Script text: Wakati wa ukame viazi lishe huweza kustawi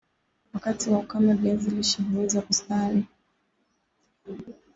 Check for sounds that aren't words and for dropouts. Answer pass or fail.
pass